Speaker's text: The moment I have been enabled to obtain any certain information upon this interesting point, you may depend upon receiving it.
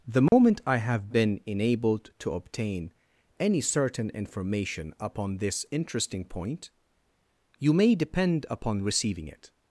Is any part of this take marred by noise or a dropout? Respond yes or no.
yes